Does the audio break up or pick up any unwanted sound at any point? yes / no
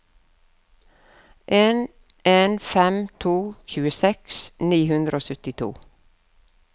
no